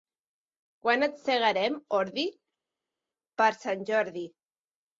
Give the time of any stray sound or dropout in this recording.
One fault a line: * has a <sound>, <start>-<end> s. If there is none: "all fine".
all fine